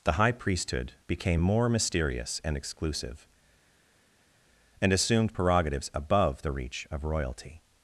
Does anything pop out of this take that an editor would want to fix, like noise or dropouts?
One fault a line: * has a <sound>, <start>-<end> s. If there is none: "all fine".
all fine